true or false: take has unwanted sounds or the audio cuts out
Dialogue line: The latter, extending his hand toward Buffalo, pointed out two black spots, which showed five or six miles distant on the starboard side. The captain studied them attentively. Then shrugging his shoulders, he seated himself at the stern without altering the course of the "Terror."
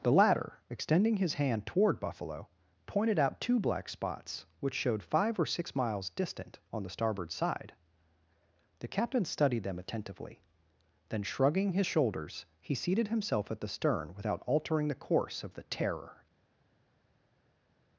false